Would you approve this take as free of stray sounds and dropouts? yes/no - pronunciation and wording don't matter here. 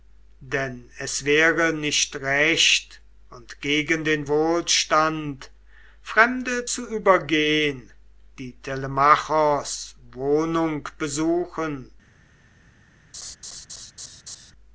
no